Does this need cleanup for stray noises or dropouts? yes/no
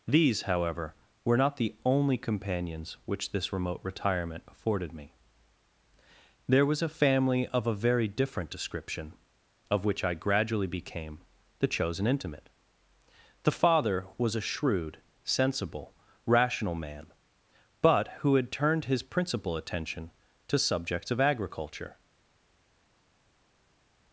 no